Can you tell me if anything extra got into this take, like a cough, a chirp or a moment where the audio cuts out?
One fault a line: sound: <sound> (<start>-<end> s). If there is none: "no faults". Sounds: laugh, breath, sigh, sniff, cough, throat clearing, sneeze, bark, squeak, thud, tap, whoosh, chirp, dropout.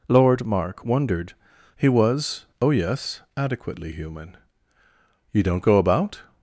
no faults